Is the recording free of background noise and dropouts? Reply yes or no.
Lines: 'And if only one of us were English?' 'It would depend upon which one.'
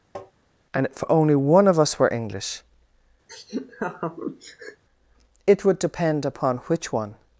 no